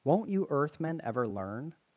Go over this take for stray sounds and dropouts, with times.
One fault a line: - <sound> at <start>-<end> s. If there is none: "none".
none